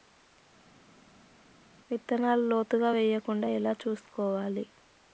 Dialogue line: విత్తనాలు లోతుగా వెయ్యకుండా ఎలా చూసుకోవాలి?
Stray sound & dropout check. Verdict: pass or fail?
pass